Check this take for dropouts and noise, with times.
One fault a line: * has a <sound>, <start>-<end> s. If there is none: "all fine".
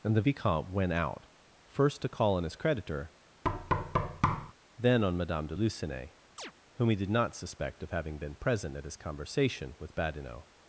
* has a thud, 3.4-4.5 s
* has a chirp, 6.4-6.5 s